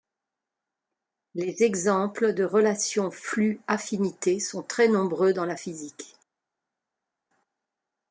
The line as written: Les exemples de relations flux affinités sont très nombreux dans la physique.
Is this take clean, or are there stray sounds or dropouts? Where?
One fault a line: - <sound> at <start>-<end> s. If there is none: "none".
none